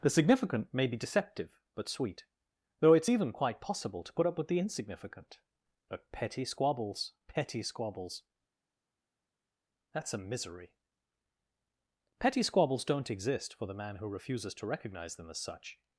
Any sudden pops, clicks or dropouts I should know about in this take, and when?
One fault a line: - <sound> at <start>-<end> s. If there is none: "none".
none